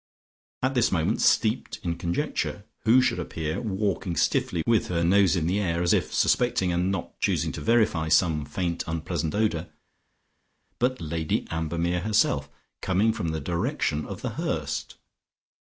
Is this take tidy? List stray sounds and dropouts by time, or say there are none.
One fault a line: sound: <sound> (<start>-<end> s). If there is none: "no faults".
no faults